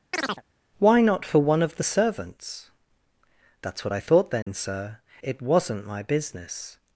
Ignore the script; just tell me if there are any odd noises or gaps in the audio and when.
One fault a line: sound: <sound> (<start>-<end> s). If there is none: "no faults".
sound: chirp (0.1-0.4 s)
sound: dropout (4.4-4.5 s)